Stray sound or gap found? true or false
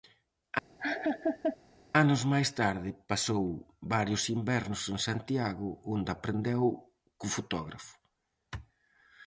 true